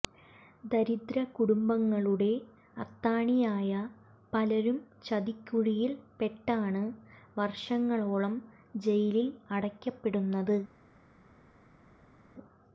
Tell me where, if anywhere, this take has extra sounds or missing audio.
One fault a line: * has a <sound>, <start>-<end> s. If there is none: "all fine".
all fine